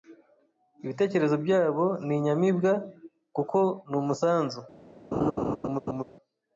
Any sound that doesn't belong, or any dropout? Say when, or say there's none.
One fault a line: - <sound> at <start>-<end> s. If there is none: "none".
- laugh at 5.1-6.0 s